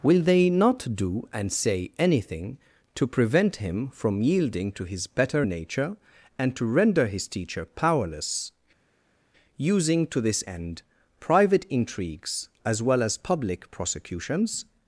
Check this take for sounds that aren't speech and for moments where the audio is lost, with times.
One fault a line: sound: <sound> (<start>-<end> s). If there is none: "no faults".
no faults